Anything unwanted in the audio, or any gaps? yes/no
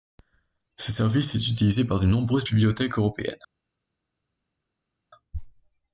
no